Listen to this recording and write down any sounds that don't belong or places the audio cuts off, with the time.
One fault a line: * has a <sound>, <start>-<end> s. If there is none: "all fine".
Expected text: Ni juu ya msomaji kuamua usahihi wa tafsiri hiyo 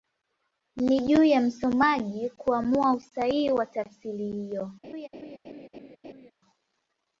* has a laugh, 4.8-6.3 s